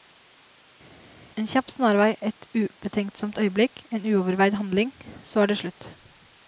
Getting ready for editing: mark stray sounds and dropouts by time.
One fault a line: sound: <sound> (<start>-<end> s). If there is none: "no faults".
no faults